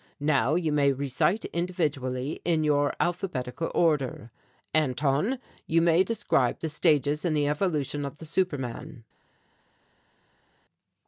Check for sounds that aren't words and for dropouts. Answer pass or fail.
pass